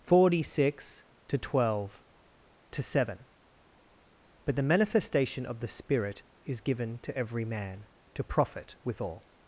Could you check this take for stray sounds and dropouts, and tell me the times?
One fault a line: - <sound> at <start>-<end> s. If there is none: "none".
none